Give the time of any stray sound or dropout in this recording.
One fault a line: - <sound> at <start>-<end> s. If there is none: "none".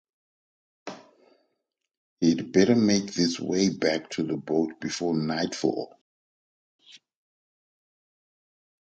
none